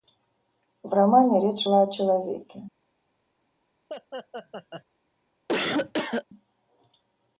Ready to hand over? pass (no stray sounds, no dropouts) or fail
fail